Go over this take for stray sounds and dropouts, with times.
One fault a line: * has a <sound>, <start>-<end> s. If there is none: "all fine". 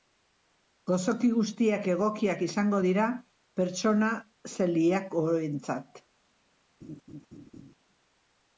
* has a laugh, 6.8-7.7 s